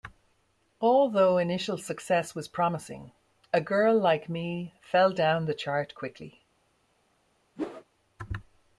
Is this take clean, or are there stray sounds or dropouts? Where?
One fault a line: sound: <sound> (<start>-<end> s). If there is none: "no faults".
sound: whoosh (7.6-7.8 s)